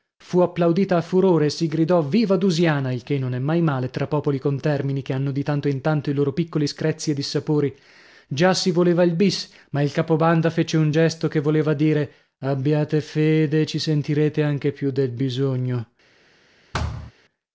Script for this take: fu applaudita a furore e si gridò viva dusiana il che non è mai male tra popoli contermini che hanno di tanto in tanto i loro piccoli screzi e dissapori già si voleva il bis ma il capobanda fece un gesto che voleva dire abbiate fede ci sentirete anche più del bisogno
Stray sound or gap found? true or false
true